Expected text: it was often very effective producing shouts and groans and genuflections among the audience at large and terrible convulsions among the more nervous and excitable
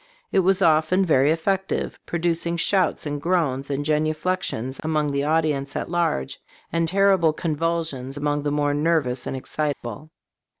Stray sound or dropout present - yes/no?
yes